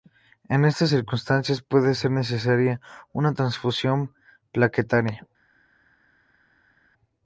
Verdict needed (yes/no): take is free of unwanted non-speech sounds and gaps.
yes